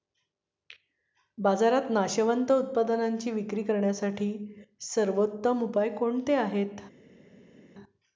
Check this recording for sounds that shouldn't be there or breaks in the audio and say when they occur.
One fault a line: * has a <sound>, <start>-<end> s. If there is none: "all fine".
all fine